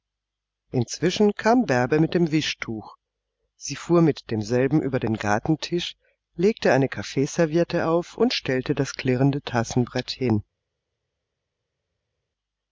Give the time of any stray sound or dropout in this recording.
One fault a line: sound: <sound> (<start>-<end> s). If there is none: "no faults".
no faults